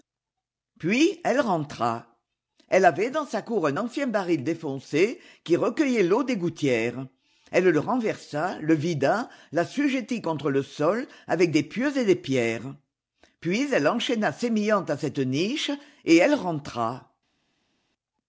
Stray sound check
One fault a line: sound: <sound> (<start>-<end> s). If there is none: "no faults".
no faults